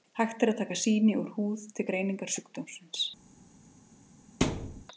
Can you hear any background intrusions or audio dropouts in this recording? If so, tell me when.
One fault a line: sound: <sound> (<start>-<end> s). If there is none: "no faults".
sound: thud (4.4-4.8 s)